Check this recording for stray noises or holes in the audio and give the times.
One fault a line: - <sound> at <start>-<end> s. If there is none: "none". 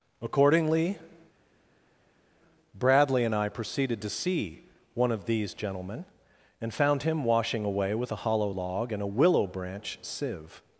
none